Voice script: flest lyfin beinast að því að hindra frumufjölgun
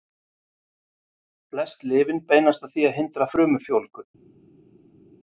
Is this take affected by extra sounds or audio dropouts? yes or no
no